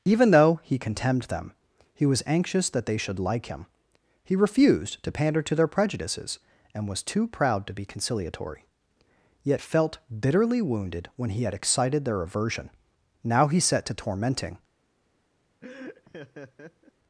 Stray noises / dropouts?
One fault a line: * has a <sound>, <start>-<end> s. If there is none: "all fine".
* has a laugh, 15.6-16.9 s